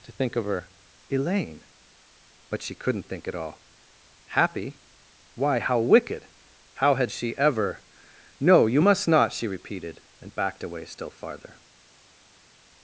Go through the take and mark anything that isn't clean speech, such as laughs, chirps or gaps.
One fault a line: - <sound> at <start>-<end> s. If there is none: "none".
none